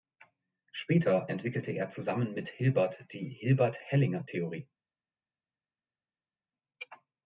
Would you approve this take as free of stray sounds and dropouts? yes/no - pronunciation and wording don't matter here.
yes